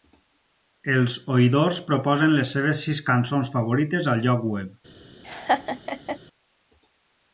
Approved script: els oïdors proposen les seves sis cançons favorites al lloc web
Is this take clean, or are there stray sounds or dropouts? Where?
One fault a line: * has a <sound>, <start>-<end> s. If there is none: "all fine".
* has a laugh, 5.2-6.2 s